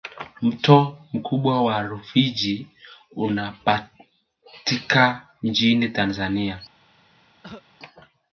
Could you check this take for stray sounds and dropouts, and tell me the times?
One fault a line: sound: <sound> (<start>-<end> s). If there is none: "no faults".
sound: cough (7.4-7.6 s)